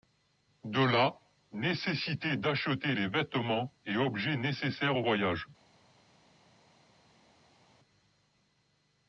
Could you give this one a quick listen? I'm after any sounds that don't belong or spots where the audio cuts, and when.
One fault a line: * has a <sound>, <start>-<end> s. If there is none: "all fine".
all fine